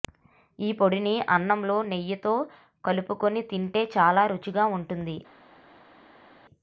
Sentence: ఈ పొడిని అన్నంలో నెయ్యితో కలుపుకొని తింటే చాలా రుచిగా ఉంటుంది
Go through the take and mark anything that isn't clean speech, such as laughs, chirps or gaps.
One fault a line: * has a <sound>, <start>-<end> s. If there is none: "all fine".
all fine